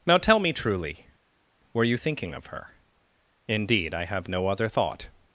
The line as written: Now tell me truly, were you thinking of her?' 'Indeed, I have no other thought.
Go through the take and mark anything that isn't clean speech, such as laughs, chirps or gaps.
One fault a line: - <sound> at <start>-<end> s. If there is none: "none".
none